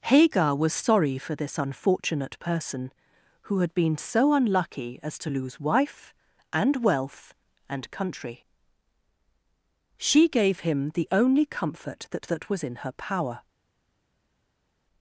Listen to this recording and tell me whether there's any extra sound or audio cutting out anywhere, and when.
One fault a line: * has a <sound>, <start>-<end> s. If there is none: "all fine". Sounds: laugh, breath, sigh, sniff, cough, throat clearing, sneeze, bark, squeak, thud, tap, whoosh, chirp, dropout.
all fine